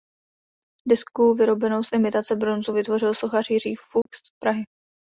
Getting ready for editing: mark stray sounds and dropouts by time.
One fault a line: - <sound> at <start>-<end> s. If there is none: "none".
- dropout at 4.0-4.1 s